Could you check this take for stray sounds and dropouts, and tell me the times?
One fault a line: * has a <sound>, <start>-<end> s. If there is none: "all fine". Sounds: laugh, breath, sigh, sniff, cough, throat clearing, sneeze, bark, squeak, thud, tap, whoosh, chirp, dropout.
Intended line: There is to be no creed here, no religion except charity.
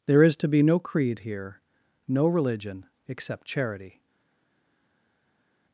all fine